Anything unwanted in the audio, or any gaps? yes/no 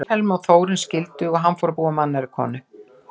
no